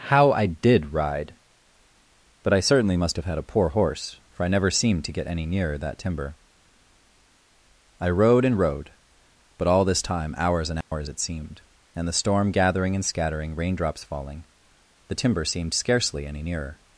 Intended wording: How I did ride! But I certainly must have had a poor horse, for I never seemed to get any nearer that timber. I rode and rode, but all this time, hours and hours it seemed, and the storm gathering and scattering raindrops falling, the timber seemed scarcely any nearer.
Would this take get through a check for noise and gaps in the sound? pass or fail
fail